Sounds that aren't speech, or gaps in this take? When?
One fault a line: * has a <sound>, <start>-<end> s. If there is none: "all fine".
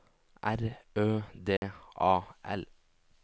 * has a dropout, 1.6-1.6 s